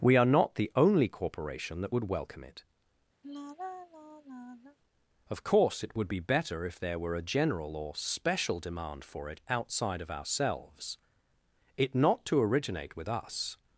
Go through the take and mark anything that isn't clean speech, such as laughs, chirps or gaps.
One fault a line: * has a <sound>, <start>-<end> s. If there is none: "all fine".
* has a sigh, 3.2-4.8 s